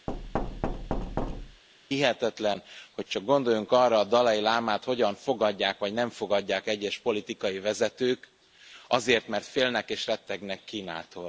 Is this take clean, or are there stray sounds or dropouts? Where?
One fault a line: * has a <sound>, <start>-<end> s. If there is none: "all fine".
* has a thud, 0.1-1.6 s